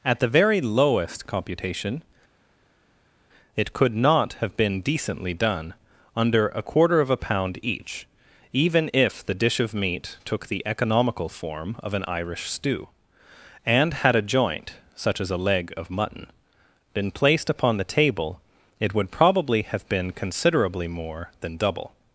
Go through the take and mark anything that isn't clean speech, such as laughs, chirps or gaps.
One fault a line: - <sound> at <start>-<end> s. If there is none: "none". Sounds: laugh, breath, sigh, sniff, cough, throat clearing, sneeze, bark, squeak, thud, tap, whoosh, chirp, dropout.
none